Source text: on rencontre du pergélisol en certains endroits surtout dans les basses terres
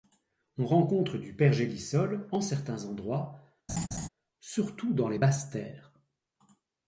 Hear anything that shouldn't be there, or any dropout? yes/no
yes